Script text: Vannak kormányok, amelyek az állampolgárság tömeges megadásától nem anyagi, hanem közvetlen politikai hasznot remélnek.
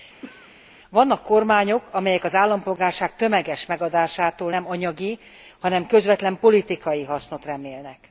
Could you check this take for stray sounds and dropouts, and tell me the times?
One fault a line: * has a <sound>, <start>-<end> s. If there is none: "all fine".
* has a throat clearing, 0.2-0.5 s